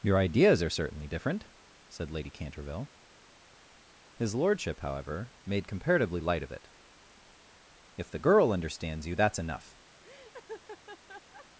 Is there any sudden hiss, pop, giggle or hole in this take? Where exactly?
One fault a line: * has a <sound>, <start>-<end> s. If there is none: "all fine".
* has a laugh, 10.0-11.5 s